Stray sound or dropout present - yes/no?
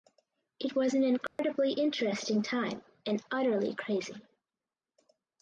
yes